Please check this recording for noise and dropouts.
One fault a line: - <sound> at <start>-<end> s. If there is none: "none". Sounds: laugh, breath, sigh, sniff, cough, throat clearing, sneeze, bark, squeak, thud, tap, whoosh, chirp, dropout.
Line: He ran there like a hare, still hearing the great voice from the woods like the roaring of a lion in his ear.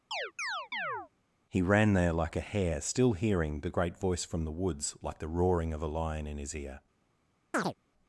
- chirp at 0.1-1.1 s
- chirp at 7.5-7.7 s